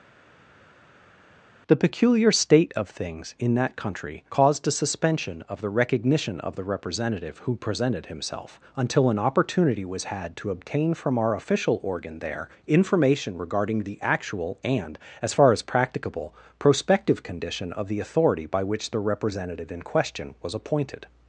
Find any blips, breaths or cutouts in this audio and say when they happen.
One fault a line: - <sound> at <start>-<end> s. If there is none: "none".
none